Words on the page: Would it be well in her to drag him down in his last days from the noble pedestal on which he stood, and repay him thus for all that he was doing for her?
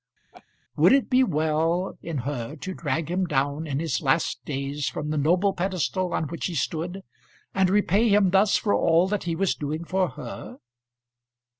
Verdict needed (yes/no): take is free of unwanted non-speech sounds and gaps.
no